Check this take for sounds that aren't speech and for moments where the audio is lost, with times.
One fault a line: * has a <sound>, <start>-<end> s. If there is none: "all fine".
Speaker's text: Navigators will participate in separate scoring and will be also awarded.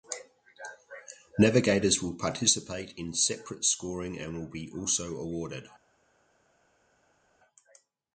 all fine